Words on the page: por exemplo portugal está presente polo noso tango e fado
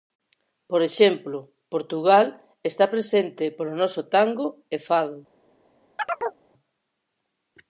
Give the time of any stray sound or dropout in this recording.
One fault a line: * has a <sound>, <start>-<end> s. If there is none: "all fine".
* has a chirp, 6.0-6.4 s